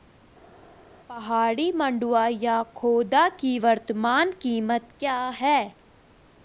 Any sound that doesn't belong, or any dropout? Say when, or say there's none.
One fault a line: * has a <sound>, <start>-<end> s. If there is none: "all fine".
all fine